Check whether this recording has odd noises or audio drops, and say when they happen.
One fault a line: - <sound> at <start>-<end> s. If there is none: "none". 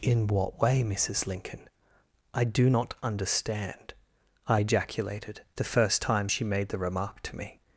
none